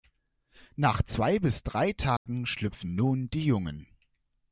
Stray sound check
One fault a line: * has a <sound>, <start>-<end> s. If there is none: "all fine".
* has a dropout, 2.2-2.3 s